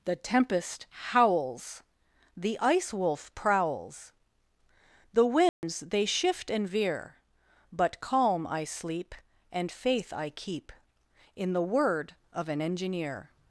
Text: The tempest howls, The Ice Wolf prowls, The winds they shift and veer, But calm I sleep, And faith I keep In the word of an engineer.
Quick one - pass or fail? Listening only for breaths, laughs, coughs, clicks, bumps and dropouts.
fail